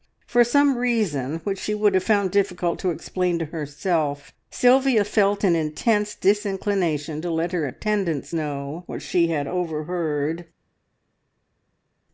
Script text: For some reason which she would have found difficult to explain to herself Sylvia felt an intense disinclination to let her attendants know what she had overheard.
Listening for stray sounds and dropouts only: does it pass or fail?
pass